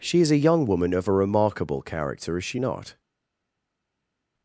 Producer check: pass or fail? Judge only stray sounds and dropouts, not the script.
pass